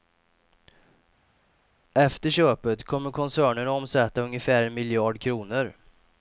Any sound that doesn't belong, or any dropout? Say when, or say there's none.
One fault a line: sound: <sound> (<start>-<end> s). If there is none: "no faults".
no faults